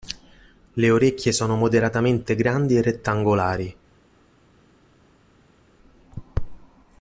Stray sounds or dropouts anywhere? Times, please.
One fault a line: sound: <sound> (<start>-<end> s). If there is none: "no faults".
no faults